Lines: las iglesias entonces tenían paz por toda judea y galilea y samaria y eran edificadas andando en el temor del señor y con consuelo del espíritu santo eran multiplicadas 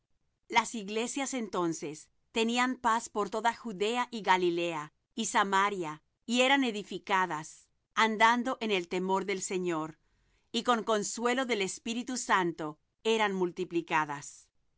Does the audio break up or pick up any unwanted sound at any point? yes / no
no